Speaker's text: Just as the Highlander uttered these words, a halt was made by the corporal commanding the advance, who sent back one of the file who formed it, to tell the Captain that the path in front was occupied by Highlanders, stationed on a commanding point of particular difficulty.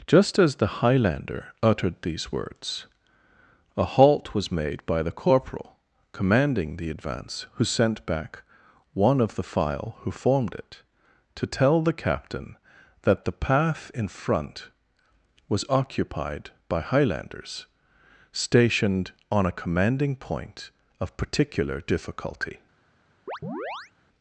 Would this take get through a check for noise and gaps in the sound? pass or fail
fail